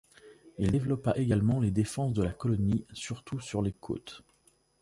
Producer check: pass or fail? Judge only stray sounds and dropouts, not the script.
pass